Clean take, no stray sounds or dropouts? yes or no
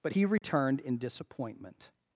no